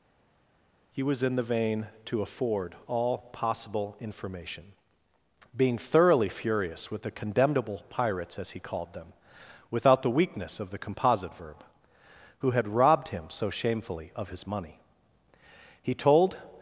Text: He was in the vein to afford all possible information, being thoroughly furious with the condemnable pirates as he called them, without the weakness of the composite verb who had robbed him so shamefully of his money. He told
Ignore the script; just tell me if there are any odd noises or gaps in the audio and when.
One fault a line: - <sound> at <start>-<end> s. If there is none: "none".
none